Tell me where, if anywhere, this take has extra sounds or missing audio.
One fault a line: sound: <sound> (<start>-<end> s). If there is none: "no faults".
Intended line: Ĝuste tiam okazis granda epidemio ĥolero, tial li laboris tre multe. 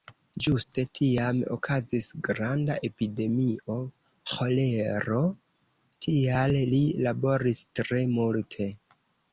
no faults